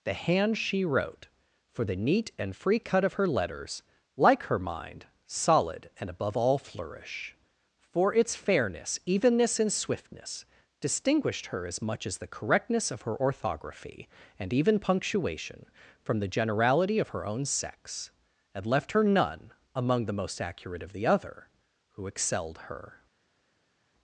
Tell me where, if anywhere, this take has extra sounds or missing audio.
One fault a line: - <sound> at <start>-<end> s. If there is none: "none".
none